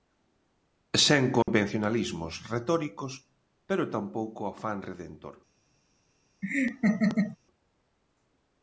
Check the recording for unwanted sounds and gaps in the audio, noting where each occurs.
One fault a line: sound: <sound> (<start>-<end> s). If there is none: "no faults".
sound: dropout (1.4-1.5 s)
sound: laugh (6.4-7.4 s)